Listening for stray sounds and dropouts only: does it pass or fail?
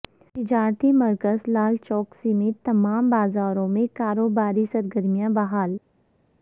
pass